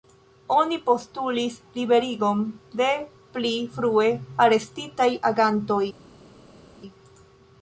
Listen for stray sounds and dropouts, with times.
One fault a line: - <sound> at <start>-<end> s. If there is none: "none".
none